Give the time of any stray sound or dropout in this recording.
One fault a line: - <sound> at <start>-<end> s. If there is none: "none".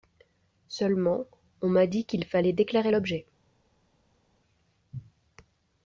none